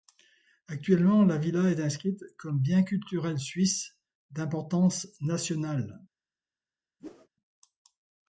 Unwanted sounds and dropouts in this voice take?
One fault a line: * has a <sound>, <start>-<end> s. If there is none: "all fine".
* has a whoosh, 7.0-7.3 s